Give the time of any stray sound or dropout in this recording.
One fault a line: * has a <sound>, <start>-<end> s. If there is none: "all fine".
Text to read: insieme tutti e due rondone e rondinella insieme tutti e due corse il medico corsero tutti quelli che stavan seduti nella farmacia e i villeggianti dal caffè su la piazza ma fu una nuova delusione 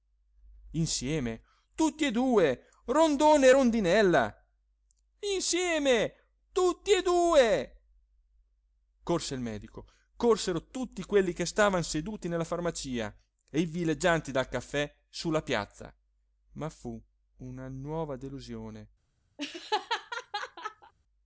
* has a laugh, 19.4-20.9 s